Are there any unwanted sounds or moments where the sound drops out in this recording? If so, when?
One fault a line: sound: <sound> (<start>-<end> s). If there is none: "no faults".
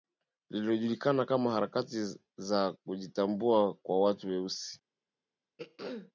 sound: throat clearing (5.6-6.1 s)